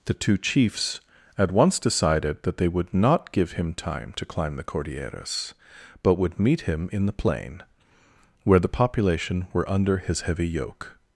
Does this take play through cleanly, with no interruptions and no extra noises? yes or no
yes